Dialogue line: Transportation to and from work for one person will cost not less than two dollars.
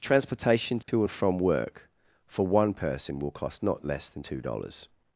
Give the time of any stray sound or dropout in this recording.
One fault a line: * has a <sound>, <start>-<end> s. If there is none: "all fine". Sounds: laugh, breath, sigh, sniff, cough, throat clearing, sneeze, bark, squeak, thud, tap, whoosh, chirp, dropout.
* has a dropout, 0.8-0.9 s